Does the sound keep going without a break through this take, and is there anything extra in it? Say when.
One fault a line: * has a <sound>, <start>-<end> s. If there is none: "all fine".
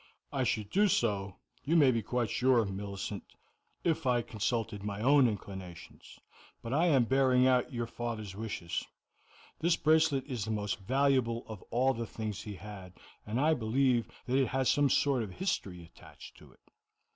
all fine